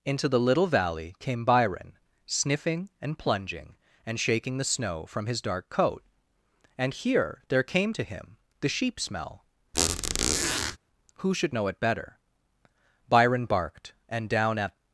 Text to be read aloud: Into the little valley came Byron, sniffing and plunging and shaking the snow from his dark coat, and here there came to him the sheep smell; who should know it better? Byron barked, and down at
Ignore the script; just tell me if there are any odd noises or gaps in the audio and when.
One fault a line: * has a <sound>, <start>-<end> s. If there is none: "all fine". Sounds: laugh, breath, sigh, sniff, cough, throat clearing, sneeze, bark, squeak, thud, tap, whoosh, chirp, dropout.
* has a squeak, 9.7-10.8 s